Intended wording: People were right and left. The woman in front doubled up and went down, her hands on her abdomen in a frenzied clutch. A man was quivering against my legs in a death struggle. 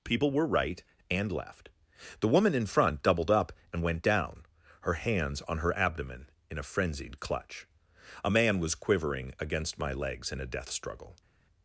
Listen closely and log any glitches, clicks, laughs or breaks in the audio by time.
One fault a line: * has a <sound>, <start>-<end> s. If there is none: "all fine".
all fine